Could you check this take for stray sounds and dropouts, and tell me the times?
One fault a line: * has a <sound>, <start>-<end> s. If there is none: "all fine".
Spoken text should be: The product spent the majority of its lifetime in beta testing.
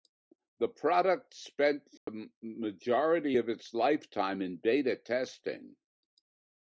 * has a dropout, 2.0-2.1 s